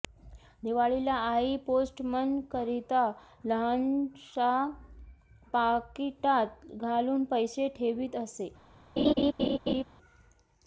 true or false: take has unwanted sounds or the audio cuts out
true